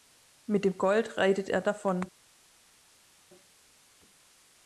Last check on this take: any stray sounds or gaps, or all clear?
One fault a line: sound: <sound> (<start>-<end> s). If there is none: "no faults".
no faults